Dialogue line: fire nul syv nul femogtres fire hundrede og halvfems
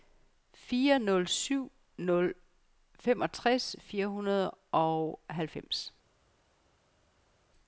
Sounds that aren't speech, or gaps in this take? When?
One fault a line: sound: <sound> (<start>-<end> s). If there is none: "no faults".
no faults